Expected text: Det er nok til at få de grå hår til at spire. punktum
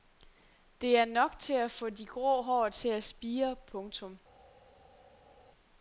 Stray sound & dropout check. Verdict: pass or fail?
pass